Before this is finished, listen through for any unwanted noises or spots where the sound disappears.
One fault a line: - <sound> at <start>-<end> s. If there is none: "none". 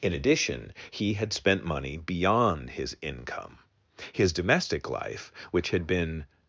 none